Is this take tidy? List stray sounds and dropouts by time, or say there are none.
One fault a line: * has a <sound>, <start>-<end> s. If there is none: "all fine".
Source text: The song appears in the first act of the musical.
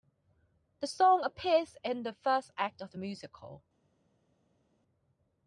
all fine